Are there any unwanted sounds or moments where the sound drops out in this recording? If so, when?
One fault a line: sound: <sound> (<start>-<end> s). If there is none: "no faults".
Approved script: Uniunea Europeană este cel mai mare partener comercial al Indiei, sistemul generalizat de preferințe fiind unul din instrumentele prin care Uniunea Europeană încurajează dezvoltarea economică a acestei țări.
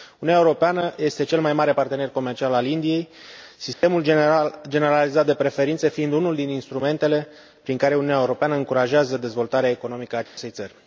sound: dropout (3.7-3.8 s)
sound: dropout (10.3-10.4 s)